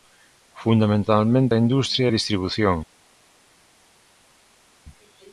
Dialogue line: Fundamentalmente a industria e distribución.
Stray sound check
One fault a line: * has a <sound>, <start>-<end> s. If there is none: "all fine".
all fine